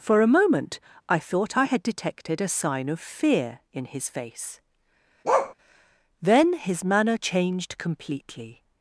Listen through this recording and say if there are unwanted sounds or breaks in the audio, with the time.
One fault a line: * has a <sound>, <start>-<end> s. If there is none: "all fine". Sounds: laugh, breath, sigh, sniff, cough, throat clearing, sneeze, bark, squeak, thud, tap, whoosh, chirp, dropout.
* has a bark, 5.2-5.5 s